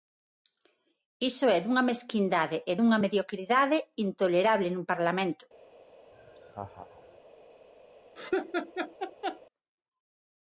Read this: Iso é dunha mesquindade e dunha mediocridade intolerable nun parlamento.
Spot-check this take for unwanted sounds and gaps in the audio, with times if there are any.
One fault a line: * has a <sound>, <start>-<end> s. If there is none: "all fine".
* has a laugh, 6.1-7.2 s
* has a laugh, 8.2-9.4 s